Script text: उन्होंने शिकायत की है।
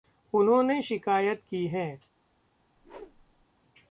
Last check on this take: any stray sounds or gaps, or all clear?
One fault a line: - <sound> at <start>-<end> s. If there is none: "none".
- whoosh at 2.8-3.5 s